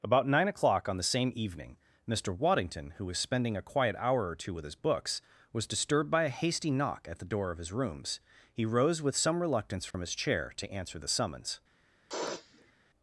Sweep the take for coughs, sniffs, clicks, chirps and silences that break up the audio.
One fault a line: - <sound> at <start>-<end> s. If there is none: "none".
- dropout at 9.9-9.9 s
- sniff at 12.1-12.7 s